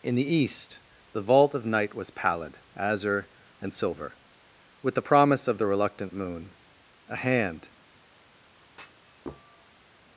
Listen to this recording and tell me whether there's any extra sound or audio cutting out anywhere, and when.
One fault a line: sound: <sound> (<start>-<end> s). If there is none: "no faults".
sound: thud (8.7-9.9 s)